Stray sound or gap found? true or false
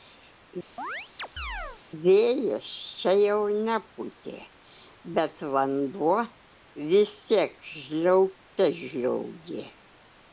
true